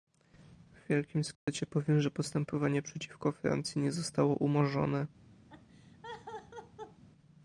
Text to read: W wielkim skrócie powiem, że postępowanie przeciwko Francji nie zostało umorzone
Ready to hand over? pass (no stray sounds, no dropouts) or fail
fail